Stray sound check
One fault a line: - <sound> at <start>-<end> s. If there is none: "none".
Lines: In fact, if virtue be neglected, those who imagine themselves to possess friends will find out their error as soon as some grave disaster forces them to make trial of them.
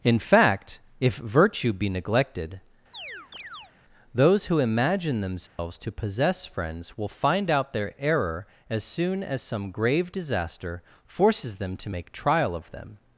- chirp at 2.9-3.7 s
- dropout at 5.5-5.6 s